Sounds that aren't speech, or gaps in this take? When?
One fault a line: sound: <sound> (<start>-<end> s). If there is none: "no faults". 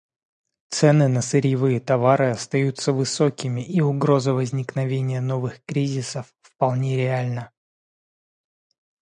no faults